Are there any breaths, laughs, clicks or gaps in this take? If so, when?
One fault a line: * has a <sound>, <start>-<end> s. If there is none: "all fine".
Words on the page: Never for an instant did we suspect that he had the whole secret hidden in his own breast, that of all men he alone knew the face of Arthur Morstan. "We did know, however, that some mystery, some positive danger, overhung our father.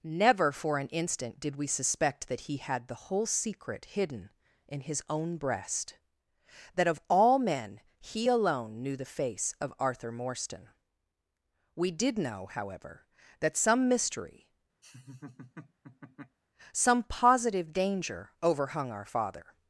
* has a laugh, 14.8-16.4 s